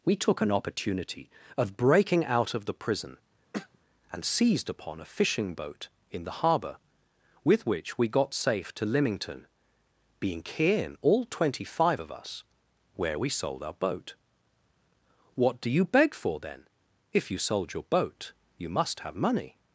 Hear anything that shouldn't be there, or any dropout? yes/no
yes